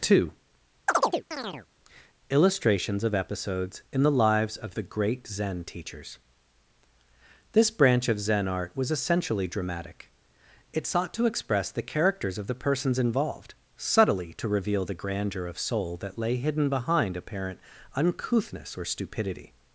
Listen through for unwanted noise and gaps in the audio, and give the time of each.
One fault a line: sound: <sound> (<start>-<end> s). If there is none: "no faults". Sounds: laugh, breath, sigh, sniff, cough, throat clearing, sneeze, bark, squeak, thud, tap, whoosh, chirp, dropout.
sound: chirp (0.9-1.7 s)